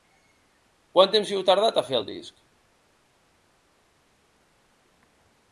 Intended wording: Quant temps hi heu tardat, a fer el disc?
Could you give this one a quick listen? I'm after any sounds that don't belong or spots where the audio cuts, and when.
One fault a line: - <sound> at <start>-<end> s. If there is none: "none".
none